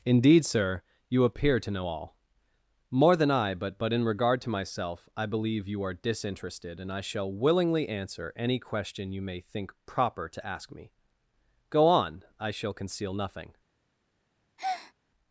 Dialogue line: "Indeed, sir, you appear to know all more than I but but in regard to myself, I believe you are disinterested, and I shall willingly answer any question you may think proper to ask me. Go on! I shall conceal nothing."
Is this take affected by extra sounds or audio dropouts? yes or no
yes